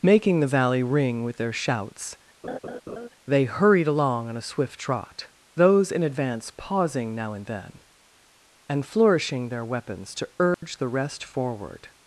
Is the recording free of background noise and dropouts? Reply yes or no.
no